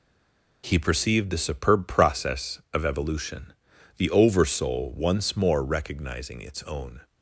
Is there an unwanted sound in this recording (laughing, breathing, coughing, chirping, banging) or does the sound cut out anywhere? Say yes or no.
no